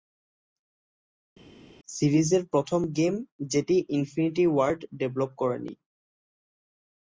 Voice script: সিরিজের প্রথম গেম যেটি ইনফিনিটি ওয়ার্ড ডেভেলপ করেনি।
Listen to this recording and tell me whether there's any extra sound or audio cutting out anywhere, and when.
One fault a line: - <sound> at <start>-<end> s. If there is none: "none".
none